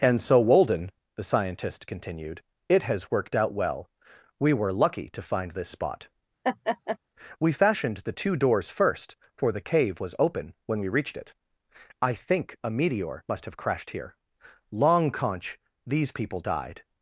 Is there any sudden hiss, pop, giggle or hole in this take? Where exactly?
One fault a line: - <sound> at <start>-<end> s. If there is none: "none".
- laugh at 6.4-7.0 s